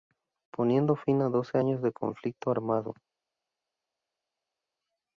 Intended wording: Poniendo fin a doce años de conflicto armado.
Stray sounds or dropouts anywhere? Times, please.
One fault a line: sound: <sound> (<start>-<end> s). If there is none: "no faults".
no faults